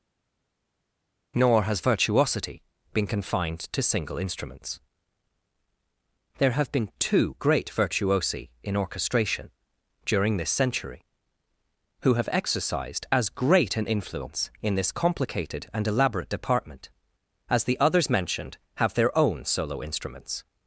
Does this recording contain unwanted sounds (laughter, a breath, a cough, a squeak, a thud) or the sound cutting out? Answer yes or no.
no